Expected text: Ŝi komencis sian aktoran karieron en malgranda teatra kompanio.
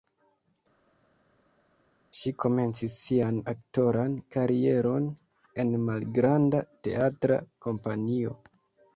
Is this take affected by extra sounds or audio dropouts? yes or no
no